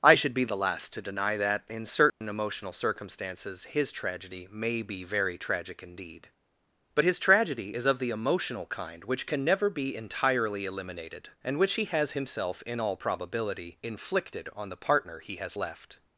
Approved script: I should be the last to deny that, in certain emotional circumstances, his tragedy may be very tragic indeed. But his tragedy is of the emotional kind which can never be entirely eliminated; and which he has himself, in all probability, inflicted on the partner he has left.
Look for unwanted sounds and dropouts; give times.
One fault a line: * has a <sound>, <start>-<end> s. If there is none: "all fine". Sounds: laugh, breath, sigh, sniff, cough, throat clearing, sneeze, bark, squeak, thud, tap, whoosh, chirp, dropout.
* has a dropout, 2.1-2.2 s